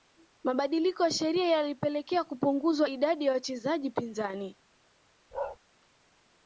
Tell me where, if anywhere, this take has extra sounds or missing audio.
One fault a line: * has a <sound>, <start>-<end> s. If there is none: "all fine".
* has a bark, 5.3-5.6 s